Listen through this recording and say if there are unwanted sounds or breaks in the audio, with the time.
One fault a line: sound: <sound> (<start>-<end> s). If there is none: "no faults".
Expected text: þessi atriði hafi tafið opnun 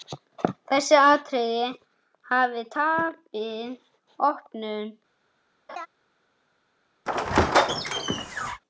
sound: laugh (5.7-5.9 s)
sound: squeak (7.1-8.6 s)